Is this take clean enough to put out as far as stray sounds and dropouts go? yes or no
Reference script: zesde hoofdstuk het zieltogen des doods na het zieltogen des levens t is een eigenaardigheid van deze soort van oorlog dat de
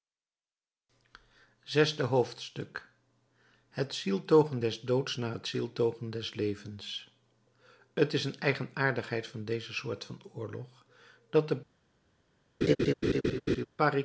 no